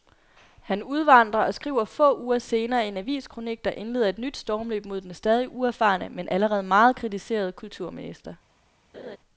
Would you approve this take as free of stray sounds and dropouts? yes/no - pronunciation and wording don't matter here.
no